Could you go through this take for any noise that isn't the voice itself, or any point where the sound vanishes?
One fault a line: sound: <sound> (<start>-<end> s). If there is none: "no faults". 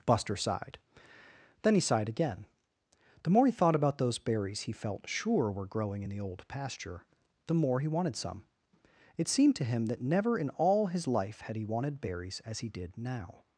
no faults